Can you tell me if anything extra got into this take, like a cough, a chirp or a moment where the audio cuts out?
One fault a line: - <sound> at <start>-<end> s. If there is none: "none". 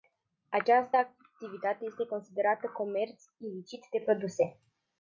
none